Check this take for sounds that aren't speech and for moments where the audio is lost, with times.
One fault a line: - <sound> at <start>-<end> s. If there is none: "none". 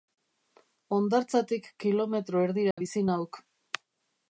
- dropout at 2.7-2.8 s